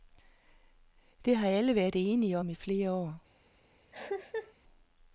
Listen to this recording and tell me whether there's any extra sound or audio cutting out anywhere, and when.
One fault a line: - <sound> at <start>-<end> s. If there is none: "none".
- cough at 3.9-4.5 s